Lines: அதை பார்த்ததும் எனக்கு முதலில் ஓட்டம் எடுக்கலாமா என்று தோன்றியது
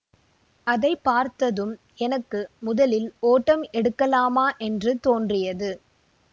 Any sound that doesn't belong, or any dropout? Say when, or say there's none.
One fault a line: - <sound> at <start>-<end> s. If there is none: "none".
none